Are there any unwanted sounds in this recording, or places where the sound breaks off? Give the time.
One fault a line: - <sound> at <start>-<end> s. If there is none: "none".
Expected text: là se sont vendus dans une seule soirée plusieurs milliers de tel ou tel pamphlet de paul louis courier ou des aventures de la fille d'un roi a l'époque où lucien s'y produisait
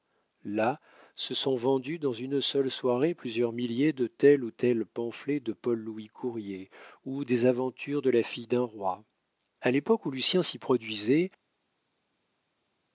none